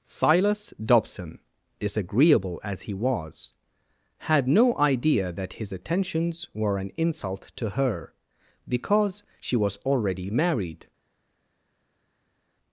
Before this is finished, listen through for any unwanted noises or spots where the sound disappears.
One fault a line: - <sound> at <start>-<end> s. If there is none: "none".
none